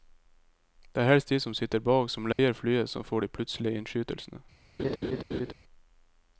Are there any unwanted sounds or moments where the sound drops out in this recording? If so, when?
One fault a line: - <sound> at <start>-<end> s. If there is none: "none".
- dropout at 2.3-2.4 s
- laugh at 4.8-5.5 s